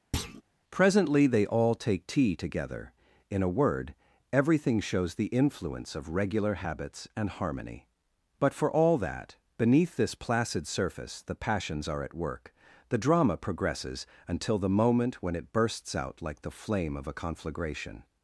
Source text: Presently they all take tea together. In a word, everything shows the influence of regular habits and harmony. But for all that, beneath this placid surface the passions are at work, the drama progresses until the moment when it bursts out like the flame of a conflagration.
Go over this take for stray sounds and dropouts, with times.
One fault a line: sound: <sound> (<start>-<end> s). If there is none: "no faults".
sound: thud (0.1-0.4 s)